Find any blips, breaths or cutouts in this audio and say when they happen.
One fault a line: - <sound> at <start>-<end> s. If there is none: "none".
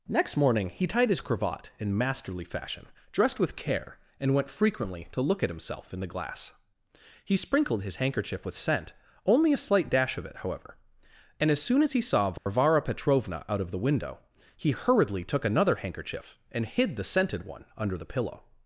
- dropout at 12.4-12.5 s